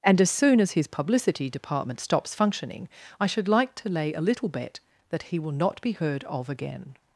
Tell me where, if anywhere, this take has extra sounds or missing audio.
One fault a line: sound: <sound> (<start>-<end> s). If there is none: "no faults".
no faults